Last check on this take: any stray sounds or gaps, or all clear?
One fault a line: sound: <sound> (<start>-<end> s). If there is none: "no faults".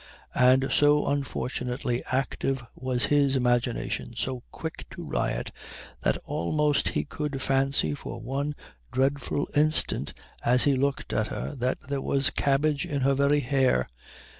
no faults